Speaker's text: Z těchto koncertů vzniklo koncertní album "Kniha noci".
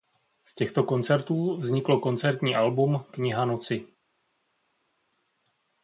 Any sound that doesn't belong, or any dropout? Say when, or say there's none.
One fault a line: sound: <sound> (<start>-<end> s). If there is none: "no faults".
no faults